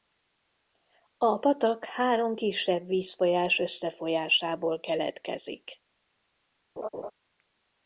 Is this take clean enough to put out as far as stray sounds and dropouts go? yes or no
no